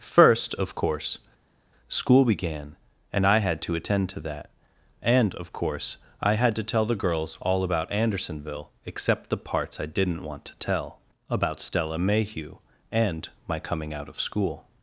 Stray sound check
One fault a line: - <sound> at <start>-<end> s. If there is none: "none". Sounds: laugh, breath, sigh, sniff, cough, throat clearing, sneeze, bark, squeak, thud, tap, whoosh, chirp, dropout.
none